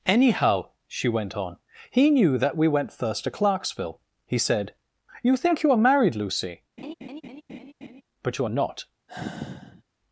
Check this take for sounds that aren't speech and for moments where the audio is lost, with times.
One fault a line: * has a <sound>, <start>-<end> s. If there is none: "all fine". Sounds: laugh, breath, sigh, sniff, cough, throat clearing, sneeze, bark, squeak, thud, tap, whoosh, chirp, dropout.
* has a laugh, 6.8-8.0 s
* has a sigh, 9.1-9.8 s